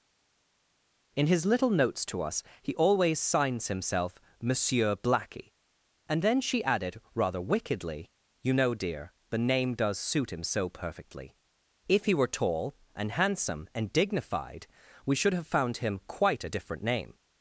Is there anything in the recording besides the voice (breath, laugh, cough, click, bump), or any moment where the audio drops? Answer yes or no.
no